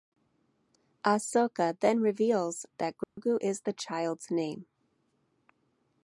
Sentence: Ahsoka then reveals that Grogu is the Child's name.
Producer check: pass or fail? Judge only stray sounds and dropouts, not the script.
fail